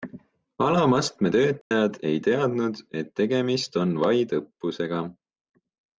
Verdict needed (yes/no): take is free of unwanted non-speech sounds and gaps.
no